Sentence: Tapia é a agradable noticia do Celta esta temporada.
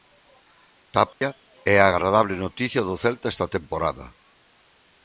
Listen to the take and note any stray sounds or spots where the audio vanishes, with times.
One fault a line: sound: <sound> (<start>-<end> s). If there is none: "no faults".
sound: dropout (1.1-1.2 s)